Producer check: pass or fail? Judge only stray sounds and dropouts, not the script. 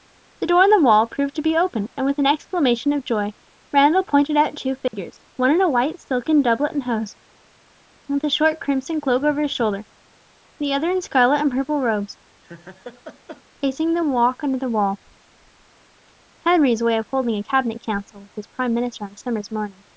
fail